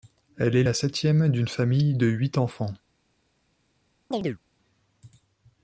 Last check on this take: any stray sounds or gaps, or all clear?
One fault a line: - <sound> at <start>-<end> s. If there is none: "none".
- chirp at 4.1-4.4 s